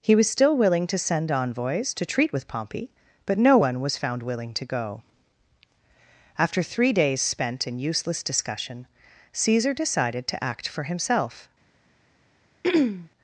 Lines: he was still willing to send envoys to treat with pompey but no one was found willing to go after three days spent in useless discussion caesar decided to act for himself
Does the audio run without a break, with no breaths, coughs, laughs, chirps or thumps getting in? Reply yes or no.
no